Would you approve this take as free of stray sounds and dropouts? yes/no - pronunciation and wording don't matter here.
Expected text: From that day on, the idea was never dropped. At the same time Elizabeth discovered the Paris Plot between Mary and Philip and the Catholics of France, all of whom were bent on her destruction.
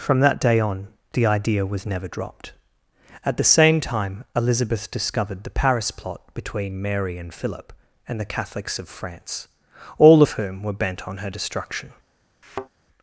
no